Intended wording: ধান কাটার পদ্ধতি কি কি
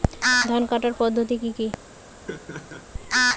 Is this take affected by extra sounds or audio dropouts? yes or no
yes